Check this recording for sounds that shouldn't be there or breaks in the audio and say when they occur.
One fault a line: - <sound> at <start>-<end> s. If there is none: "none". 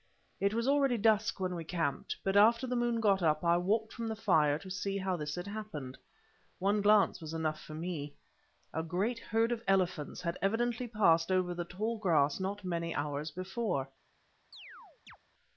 - chirp at 14.5-15.2 s